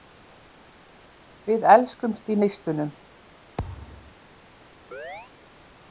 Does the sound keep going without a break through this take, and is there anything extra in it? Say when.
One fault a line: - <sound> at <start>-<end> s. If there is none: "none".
- thud at 3.6-4.1 s
- chirp at 4.9-5.3 s